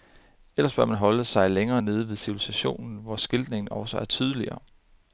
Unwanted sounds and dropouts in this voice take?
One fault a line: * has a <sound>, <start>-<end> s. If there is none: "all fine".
all fine